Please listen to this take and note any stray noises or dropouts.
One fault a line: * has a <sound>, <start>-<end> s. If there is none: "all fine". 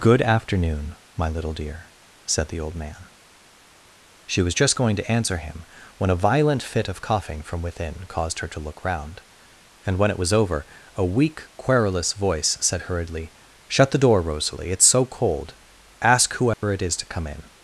* has a dropout, 16.5-16.6 s